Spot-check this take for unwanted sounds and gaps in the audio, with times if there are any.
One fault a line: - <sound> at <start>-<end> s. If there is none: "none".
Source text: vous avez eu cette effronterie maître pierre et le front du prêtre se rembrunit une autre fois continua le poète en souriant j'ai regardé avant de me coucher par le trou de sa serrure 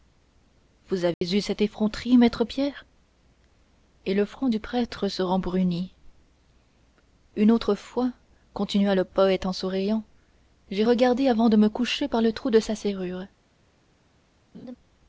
- dropout at 1.1-1.2 s
- laugh at 14.5-14.8 s